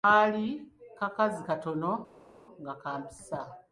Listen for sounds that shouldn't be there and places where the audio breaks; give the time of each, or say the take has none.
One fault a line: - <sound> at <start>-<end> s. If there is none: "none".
none